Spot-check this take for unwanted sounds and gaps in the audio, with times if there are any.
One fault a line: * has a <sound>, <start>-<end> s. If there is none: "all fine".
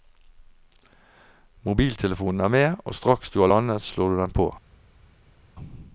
all fine